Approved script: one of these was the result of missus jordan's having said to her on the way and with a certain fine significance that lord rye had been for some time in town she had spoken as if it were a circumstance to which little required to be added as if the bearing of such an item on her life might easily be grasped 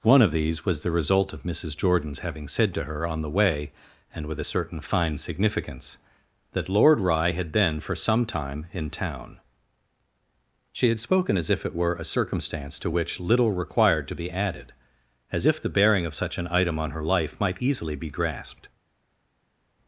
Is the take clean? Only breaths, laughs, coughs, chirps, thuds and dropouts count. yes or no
yes